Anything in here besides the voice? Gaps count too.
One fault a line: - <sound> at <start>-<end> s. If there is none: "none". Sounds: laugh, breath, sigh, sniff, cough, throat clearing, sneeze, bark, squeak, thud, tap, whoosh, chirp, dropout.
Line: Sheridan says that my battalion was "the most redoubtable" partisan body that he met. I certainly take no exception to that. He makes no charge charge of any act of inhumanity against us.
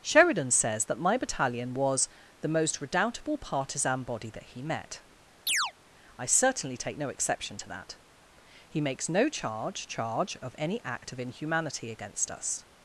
- chirp at 5.5-5.7 s